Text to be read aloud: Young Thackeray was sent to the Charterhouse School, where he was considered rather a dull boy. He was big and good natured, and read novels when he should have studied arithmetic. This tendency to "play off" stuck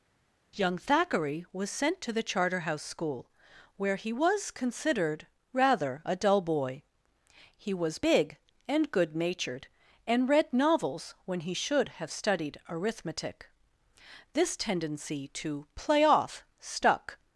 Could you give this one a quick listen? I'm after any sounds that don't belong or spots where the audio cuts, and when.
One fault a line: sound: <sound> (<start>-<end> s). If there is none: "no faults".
no faults